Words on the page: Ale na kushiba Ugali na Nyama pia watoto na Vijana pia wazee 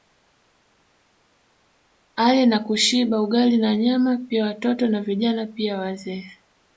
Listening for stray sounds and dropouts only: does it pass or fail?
pass